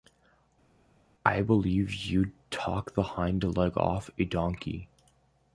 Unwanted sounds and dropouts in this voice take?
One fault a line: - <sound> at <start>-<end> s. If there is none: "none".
none